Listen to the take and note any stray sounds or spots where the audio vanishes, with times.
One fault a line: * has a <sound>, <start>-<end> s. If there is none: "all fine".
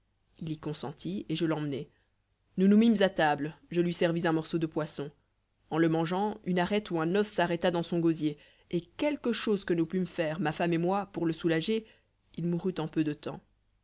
all fine